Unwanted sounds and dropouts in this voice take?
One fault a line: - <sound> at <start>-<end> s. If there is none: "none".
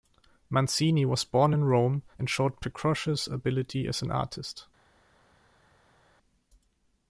none